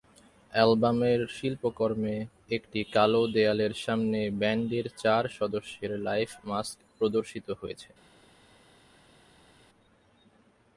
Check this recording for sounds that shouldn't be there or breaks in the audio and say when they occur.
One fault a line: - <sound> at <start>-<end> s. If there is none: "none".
none